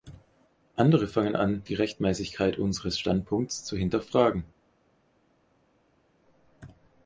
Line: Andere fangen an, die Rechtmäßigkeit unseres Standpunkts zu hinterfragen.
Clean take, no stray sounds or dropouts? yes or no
yes